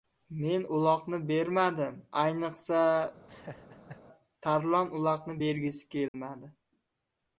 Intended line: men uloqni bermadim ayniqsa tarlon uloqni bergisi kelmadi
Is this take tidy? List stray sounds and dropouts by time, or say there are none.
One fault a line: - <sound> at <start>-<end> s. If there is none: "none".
- laugh at 3.3-4.0 s
- dropout at 6.1-6.1 s